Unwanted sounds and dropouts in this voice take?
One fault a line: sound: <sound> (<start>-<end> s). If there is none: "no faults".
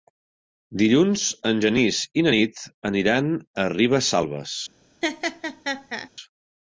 sound: laugh (5.0-6.1 s)